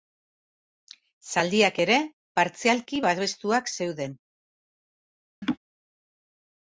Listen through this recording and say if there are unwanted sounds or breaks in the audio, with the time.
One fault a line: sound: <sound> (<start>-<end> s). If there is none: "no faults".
sound: laugh (5.4-5.6 s)